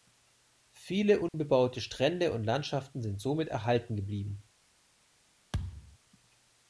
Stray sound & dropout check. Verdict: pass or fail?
fail